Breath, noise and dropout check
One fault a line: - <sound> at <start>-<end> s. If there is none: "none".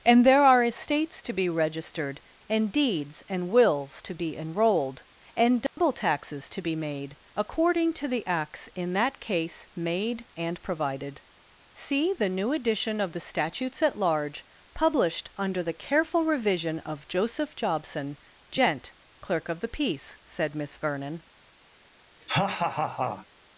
- dropout at 5.7-5.8 s
- laugh at 22.2-23.3 s